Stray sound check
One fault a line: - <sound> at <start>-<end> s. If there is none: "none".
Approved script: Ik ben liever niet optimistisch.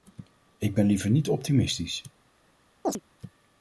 - chirp at 2.8-3.0 s